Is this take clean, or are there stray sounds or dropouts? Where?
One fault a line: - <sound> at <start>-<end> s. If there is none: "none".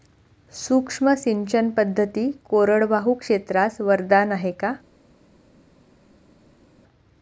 none